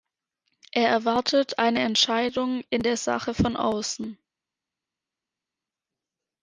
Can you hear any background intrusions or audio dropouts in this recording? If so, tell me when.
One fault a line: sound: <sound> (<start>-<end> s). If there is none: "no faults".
no faults